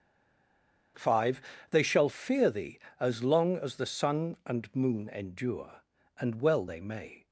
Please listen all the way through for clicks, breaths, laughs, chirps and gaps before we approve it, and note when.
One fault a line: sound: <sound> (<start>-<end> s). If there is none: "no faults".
no faults